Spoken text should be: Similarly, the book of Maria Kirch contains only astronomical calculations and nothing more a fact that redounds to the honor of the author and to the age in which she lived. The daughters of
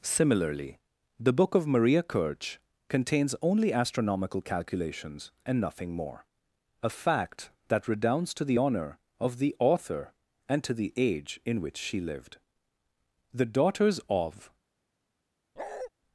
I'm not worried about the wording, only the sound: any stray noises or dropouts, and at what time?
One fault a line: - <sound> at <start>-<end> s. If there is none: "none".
- bark at 15.6-15.9 s